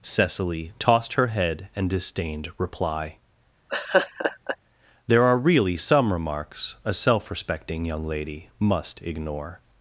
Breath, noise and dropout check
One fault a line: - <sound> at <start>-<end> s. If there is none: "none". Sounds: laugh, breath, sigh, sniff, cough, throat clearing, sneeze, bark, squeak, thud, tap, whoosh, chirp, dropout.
- laugh at 3.7-4.6 s